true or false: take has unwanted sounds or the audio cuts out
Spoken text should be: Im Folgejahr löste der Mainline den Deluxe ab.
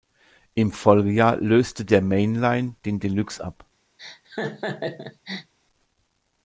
true